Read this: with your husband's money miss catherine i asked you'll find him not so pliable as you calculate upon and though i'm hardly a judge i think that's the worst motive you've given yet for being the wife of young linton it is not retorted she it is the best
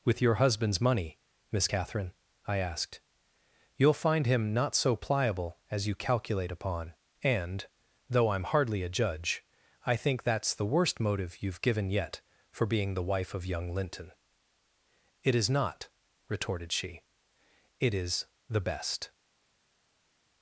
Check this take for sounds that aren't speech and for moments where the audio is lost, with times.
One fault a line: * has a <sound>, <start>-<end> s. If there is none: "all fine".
all fine